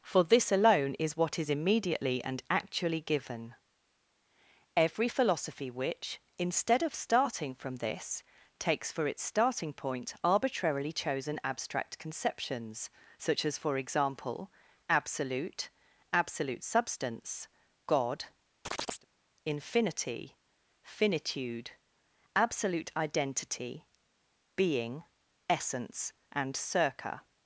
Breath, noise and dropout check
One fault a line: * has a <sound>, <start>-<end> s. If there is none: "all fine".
* has a chirp, 18.6-19.1 s